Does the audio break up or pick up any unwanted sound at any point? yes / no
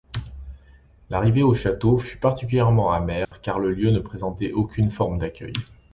yes